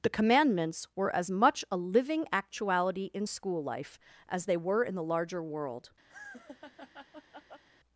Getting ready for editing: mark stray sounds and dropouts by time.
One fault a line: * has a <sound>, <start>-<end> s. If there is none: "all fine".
* has a laugh, 6.1-7.6 s